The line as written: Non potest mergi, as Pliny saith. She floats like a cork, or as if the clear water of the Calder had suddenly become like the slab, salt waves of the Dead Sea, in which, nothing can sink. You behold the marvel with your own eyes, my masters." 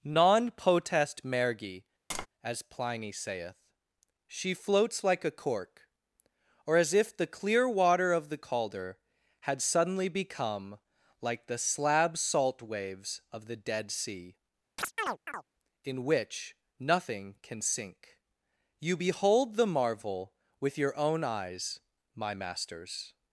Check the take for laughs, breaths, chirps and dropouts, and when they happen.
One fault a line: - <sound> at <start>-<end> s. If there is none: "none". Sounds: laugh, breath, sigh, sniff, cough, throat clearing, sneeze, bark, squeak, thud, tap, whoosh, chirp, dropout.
- tap at 2.1-2.3 s
- chirp at 14.8-15.4 s